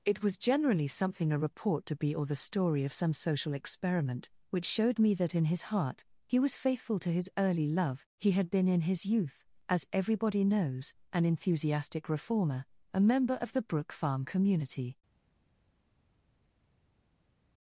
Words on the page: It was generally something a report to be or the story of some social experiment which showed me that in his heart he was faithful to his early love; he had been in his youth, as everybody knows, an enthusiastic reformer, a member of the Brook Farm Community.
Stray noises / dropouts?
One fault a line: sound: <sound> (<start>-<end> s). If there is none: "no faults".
no faults